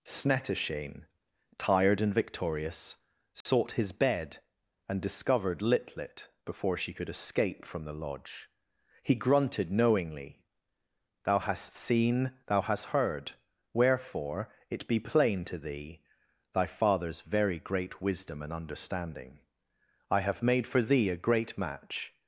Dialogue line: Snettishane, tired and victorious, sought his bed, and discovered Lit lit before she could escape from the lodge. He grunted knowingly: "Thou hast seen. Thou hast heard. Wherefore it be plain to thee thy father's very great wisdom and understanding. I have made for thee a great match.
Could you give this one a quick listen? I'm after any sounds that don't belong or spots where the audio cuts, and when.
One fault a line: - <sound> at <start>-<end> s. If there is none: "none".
- dropout at 3.4-3.5 s